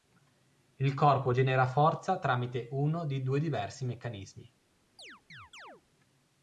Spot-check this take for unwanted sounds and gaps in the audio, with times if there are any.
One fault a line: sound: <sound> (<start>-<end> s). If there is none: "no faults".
sound: chirp (5.0-5.8 s)